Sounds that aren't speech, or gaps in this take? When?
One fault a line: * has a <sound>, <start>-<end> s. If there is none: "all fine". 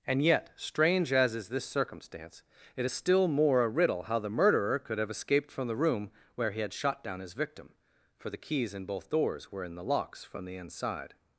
all fine